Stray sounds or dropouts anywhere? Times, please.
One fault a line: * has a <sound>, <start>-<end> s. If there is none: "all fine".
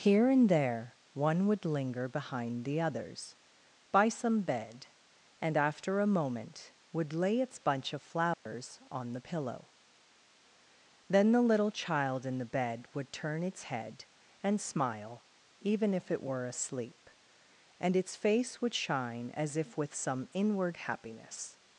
* has a dropout, 8.3-8.5 s